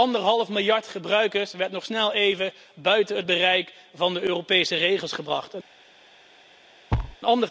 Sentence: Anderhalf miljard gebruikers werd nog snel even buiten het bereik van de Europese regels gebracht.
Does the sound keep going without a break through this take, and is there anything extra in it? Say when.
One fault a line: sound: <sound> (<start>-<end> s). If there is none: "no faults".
sound: thud (6.9-7.2 s)